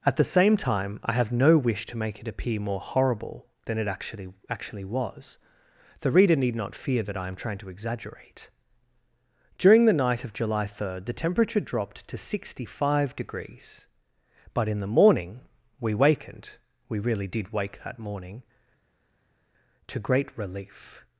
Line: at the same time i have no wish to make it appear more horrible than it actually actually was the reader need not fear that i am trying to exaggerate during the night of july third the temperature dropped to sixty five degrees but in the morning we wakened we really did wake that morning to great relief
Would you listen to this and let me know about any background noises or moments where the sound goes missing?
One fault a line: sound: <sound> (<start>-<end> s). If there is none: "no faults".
no faults